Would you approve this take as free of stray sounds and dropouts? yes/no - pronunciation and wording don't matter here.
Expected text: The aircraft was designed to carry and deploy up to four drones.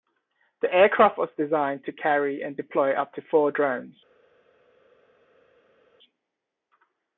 yes